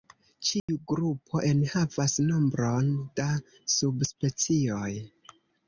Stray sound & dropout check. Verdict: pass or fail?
fail